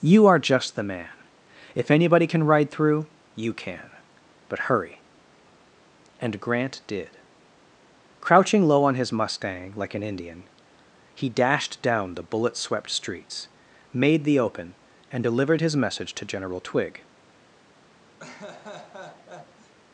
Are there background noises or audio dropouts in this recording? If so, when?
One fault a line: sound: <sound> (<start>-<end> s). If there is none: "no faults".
sound: laugh (18.2-19.7 s)